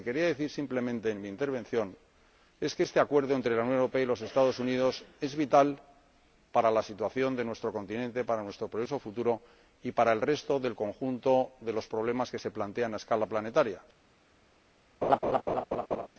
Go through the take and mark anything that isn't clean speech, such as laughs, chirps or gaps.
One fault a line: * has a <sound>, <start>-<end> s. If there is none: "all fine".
* has a laugh, 15.0-16.1 s